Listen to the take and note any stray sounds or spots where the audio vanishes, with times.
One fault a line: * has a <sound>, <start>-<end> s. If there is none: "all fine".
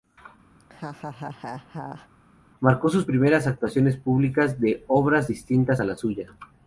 * has a laugh, 0.6-2.1 s